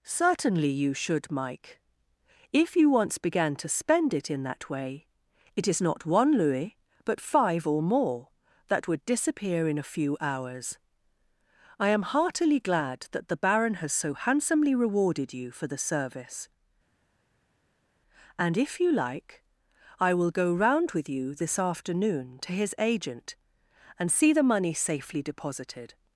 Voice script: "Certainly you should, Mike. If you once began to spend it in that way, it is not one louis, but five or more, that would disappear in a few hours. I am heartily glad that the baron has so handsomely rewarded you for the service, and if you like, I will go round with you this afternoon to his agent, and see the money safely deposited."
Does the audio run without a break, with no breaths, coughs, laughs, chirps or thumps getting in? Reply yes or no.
yes